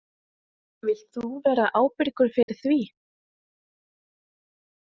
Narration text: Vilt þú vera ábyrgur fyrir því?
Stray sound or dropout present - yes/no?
yes